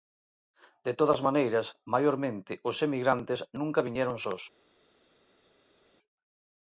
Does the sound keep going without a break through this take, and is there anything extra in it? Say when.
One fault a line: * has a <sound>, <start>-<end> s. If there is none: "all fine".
all fine